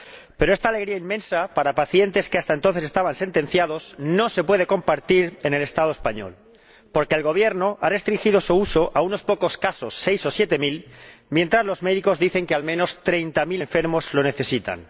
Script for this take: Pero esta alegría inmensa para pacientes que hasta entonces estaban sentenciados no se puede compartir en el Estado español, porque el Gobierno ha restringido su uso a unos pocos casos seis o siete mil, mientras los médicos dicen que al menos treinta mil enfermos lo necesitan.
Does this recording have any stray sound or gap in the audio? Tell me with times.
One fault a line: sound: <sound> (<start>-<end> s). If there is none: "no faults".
no faults